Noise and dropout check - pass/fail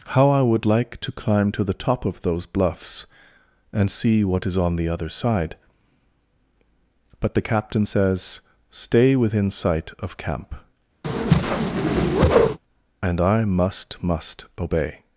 fail